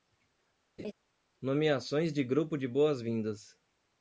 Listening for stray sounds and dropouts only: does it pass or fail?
fail